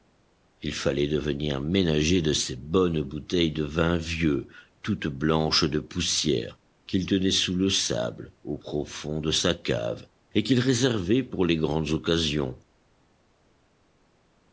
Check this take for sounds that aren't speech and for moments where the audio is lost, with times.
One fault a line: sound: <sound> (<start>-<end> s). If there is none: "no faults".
no faults